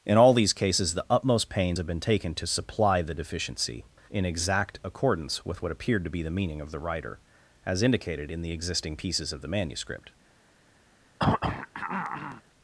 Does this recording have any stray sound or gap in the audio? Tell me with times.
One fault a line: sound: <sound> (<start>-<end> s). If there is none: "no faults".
sound: throat clearing (11.2-12.4 s)